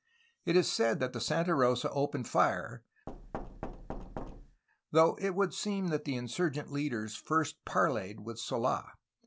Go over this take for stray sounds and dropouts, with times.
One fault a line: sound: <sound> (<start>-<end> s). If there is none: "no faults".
sound: thud (3.1-4.6 s)